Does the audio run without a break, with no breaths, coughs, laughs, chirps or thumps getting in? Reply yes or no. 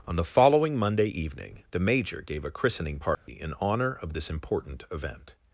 no